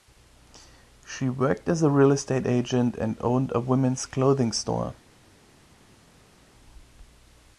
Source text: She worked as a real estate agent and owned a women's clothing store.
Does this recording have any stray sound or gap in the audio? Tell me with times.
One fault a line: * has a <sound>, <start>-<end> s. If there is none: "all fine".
all fine